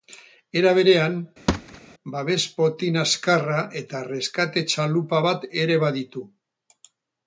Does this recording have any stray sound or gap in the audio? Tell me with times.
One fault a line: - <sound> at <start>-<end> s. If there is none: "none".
- thud at 1.5-1.8 s